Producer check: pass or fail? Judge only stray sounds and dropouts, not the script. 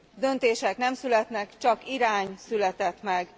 pass